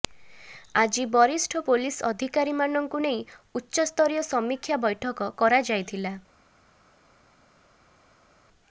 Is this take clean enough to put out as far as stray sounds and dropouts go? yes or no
yes